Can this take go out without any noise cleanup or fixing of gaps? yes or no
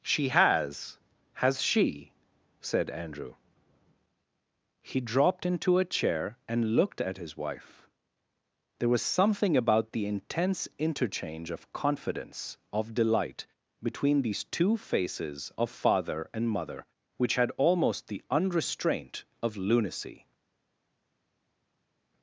yes